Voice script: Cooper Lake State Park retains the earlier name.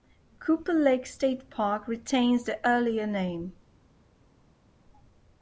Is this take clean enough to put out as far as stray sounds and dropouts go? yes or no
yes